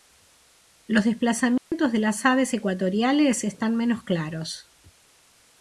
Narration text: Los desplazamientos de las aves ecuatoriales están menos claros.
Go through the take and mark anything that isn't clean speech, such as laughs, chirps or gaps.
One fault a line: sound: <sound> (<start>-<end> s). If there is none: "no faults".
sound: dropout (1.6-1.7 s)